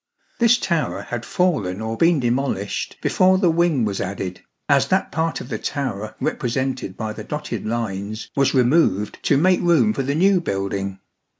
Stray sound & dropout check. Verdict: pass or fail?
pass